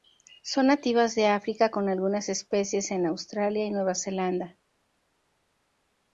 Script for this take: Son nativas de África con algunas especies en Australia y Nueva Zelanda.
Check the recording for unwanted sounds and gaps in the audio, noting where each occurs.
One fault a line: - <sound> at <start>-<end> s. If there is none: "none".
none